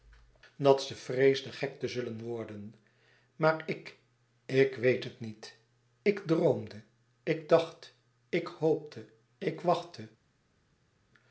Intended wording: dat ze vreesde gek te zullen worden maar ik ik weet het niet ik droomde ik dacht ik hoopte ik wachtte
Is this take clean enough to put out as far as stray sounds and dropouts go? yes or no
yes